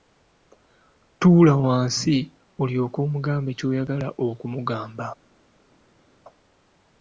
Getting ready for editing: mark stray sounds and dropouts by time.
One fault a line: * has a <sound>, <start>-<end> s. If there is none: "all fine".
all fine